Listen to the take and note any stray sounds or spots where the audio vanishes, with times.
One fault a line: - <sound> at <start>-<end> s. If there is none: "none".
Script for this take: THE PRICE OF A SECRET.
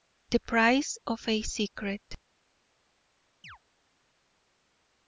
- chirp at 3.4-3.6 s